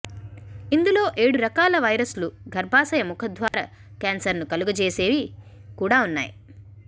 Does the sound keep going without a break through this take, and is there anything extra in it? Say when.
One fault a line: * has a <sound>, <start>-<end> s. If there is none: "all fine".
* has a dropout, 3.5-3.5 s